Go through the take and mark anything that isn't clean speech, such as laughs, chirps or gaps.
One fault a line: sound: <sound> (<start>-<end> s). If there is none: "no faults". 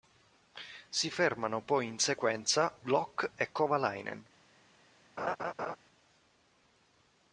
sound: laugh (5.2-5.8 s)